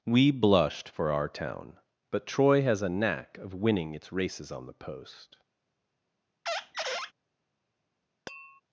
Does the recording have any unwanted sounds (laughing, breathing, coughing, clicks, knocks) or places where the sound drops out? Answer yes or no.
yes